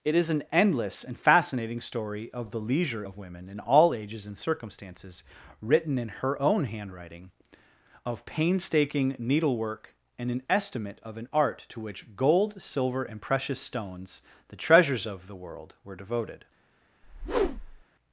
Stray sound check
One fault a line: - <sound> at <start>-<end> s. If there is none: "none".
- whoosh at 17.0-17.8 s